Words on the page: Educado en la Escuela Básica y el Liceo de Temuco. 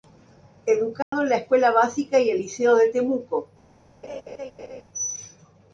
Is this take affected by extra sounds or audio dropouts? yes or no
yes